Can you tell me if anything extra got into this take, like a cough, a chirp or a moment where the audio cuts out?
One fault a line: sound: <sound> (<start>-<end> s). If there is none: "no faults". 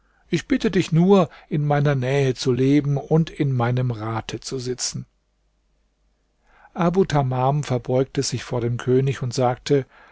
no faults